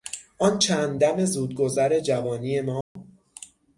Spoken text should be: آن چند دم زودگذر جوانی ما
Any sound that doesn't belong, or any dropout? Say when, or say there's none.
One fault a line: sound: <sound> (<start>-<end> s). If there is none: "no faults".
sound: dropout (2.8-3.0 s)